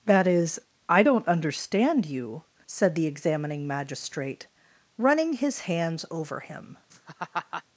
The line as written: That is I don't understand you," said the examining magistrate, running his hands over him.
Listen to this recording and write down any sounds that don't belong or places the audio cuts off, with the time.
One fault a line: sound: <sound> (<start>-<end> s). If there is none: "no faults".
sound: laugh (6.9-7.6 s)